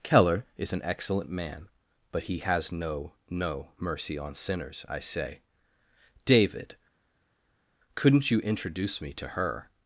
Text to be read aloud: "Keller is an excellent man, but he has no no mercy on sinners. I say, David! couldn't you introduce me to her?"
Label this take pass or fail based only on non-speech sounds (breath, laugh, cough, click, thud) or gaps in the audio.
pass